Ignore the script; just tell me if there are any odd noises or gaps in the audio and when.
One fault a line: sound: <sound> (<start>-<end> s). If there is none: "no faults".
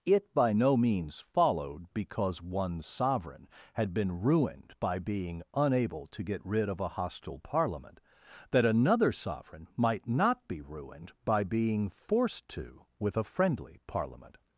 no faults